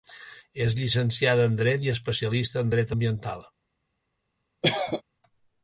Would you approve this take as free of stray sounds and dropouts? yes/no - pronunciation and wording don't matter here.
no